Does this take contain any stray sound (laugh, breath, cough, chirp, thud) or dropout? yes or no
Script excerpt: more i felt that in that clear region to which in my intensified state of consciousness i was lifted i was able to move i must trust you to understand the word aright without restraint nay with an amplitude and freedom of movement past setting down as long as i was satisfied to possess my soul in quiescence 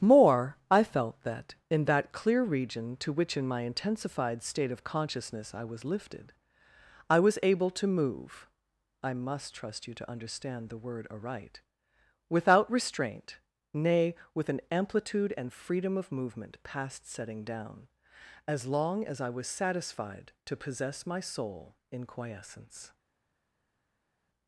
no